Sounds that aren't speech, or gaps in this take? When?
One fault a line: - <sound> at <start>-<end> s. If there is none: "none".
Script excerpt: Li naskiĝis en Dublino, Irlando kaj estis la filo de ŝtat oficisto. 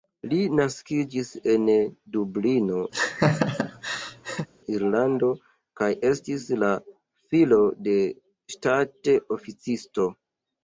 - laugh at 2.9-4.5 s